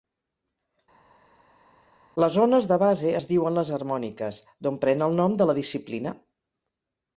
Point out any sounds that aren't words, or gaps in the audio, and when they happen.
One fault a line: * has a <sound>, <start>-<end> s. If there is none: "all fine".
all fine